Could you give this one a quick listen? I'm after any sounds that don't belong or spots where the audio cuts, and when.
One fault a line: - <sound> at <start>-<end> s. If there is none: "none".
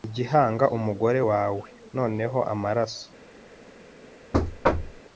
- thud at 4.3-5.0 s